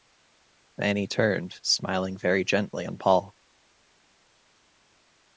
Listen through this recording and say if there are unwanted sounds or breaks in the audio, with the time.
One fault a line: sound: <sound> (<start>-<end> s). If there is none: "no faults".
no faults